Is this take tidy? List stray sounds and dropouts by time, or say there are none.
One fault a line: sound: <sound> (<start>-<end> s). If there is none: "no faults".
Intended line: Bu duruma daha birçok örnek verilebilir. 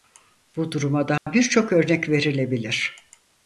sound: dropout (1.2-1.3 s)